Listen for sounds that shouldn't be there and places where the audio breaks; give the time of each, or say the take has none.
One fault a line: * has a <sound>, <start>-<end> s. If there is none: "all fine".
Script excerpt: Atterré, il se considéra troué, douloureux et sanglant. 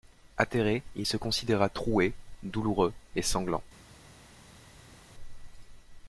all fine